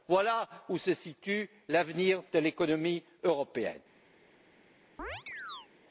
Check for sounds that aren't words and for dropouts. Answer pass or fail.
fail